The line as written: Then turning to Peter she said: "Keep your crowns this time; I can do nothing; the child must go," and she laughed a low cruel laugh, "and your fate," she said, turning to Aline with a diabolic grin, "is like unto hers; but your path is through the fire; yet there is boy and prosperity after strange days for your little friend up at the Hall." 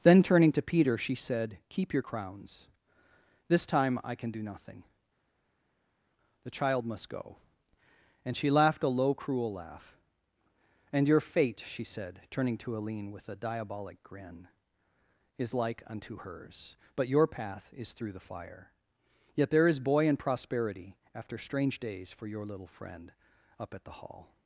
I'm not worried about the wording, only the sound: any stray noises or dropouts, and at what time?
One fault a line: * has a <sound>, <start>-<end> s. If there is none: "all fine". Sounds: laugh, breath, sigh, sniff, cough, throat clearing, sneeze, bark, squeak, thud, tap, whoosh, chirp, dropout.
all fine